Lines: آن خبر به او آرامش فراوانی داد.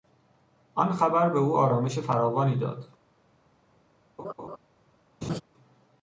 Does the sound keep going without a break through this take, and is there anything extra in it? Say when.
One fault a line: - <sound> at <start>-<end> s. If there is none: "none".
- laugh at 4.2-4.6 s
- laugh at 5.2-5.4 s